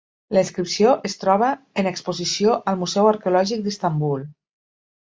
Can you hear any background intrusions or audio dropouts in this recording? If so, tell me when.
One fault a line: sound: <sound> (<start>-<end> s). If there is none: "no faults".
no faults